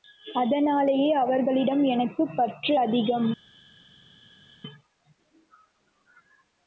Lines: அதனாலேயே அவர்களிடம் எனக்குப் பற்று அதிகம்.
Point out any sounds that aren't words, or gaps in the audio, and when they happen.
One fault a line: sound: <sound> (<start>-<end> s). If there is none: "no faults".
no faults